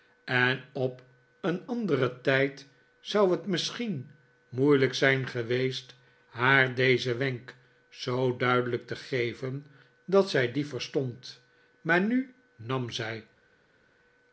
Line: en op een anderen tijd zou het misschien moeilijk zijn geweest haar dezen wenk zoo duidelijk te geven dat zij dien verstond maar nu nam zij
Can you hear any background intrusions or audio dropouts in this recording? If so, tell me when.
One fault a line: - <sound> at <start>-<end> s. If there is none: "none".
none